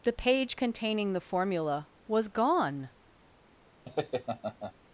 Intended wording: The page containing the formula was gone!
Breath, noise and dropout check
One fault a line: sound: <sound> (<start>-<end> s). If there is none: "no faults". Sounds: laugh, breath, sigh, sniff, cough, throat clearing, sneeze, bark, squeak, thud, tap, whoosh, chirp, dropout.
sound: laugh (3.9-4.7 s)